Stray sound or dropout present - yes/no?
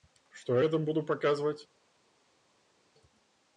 no